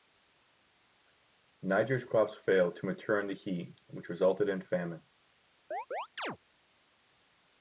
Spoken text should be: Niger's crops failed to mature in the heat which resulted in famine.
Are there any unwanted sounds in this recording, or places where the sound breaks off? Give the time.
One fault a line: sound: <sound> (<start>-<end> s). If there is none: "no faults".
sound: chirp (5.7-6.4 s)